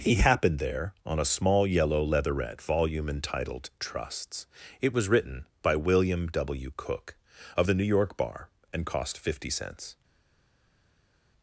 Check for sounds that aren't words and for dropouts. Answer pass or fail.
pass